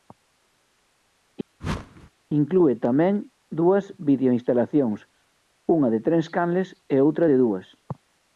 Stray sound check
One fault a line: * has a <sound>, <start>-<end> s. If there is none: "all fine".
* has a whoosh, 1.6-2.1 s